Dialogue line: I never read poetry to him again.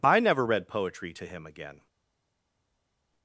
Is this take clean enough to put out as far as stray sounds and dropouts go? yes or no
yes